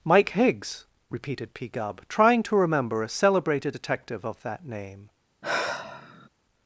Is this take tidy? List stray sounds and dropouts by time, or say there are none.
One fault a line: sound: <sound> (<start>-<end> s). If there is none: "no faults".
sound: sigh (5.4-6.3 s)